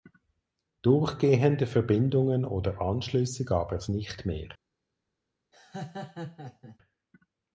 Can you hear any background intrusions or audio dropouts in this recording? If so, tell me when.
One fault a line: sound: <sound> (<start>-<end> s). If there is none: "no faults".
sound: laugh (5.5-6.8 s)